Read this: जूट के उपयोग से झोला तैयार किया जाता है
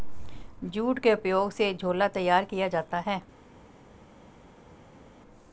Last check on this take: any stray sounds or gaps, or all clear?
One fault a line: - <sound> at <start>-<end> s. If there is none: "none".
none